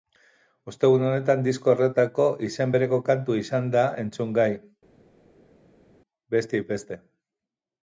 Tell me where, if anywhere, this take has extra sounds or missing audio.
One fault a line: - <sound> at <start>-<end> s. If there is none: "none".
none